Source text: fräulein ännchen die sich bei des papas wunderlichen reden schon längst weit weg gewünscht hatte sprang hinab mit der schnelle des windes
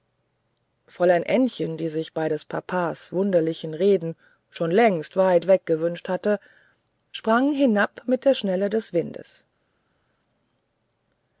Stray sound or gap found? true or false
false